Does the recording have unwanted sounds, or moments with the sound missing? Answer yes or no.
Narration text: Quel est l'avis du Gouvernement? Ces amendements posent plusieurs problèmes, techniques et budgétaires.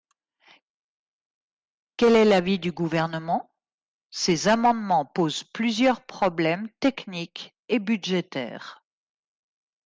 no